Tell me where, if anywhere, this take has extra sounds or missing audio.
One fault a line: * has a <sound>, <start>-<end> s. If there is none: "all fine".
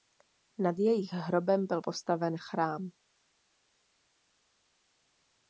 all fine